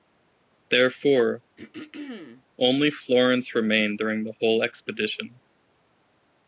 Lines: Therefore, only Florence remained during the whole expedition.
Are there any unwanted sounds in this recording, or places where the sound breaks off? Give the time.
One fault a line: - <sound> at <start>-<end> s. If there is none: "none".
- throat clearing at 1.6-2.4 s